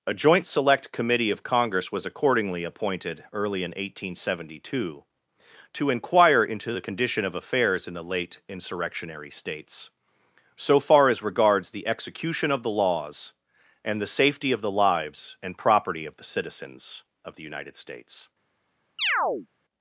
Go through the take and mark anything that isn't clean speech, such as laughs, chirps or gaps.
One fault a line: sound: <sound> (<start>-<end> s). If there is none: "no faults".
sound: chirp (19.0-19.5 s)